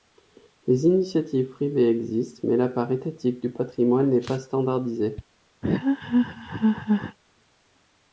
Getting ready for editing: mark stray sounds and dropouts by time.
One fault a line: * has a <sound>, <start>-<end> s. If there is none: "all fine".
* has a laugh, 5.6-7.2 s